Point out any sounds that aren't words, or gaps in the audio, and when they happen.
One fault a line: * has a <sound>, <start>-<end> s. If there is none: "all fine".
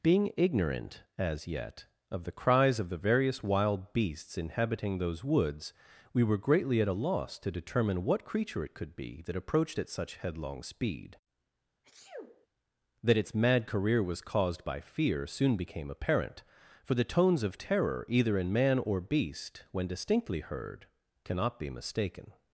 * has a sneeze, 11.8-12.5 s